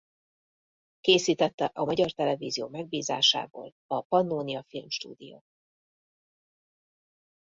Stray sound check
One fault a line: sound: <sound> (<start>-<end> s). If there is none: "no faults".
no faults